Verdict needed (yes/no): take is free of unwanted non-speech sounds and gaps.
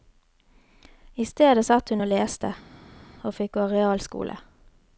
yes